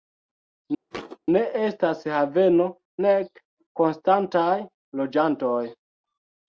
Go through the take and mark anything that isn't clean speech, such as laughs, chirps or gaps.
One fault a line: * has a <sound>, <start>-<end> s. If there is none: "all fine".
* has a thud, 0.9-1.2 s